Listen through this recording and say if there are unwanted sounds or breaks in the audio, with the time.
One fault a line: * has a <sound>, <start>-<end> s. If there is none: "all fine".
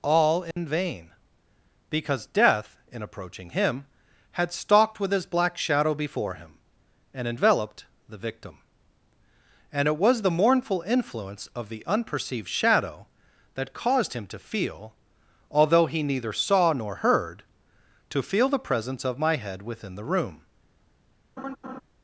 * has a dropout, 0.5-0.6 s
* has a laugh, 21.4-21.8 s